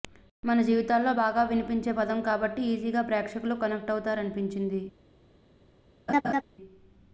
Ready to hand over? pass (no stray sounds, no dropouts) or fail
fail